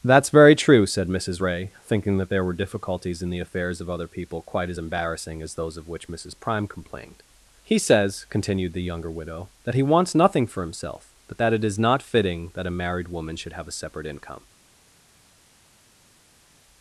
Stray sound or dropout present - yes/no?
no